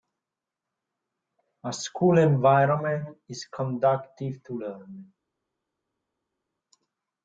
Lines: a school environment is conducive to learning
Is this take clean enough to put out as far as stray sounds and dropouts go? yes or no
yes